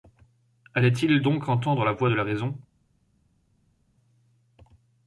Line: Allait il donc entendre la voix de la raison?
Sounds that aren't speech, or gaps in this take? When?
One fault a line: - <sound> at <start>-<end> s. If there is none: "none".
none